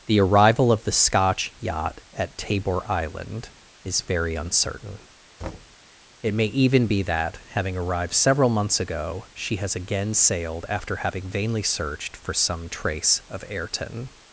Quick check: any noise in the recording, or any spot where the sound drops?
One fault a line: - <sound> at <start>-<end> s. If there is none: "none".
- thud at 5.4-5.8 s